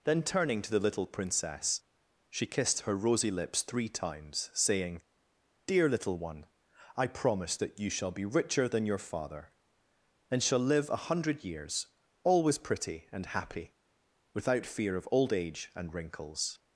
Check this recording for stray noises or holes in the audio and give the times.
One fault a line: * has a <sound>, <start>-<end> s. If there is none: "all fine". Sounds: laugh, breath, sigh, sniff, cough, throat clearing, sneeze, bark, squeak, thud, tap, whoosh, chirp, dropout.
all fine